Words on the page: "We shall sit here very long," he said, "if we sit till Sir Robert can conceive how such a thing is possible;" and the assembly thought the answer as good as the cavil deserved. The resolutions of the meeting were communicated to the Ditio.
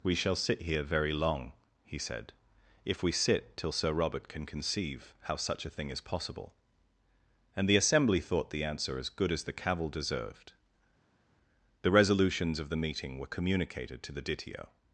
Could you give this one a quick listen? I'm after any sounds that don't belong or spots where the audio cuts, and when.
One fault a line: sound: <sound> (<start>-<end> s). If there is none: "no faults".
no faults